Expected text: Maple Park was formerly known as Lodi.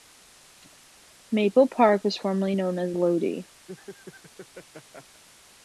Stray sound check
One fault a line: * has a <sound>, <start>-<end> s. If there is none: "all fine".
* has a laugh, 3.7-5.2 s